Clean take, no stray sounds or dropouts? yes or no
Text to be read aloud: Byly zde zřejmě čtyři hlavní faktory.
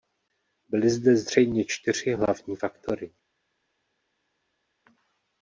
yes